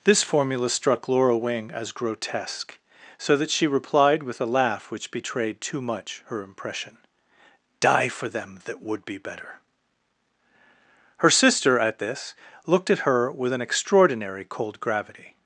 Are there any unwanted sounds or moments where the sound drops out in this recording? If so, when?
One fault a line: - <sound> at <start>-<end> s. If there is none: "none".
none